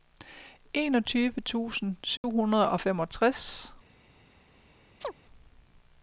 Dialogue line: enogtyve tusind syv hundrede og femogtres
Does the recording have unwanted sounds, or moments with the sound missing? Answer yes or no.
yes